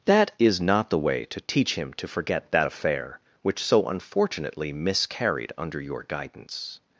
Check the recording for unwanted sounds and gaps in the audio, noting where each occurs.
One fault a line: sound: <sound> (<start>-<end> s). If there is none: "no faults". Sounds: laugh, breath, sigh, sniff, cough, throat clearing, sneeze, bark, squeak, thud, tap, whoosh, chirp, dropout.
no faults